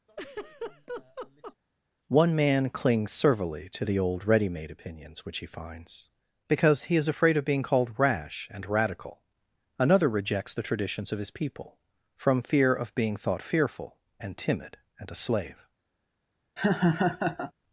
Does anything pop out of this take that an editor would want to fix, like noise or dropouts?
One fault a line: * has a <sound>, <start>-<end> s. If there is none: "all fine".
* has a laugh, 0.1-1.6 s
* has a laugh, 16.6-17.5 s